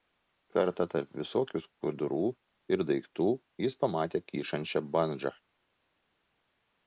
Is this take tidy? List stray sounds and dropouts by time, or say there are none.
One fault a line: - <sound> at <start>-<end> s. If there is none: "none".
none